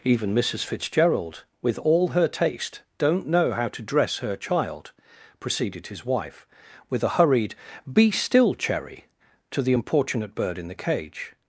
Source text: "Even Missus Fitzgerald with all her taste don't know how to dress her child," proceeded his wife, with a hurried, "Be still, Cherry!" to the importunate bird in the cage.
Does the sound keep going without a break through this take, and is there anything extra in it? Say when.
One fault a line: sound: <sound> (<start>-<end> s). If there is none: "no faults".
no faults